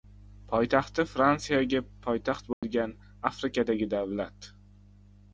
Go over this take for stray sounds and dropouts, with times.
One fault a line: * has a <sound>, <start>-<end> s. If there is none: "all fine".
* has a dropout, 2.5-2.6 s